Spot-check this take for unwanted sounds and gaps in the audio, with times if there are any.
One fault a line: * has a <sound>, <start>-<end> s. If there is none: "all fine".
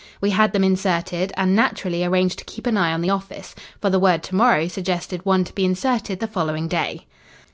all fine